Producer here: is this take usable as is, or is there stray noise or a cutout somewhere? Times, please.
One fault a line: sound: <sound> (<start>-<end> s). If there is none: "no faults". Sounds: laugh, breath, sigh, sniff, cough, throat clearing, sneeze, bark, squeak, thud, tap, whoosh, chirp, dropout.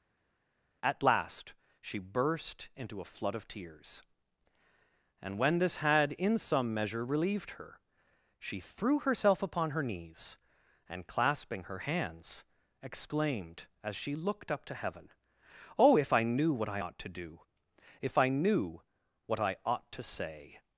no faults